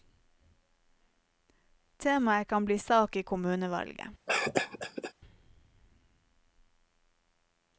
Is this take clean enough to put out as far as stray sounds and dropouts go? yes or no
no